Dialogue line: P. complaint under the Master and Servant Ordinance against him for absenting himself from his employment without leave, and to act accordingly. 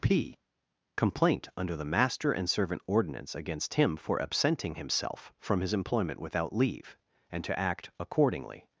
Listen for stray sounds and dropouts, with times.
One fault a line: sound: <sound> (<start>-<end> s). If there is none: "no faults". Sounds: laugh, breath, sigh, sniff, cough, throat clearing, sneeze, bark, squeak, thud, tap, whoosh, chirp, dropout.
no faults